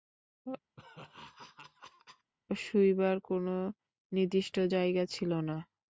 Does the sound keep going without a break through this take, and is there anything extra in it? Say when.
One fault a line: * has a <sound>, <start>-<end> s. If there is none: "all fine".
* has a laugh, 0.8-2.3 s